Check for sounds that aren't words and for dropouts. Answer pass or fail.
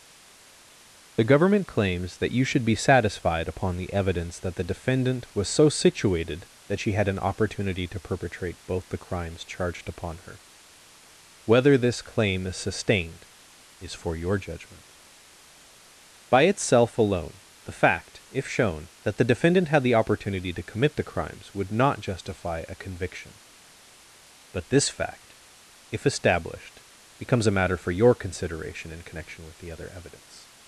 pass